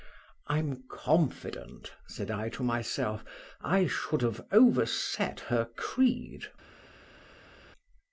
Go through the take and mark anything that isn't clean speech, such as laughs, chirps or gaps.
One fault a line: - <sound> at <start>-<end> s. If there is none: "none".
none